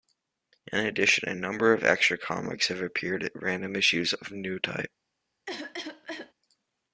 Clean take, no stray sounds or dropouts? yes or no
no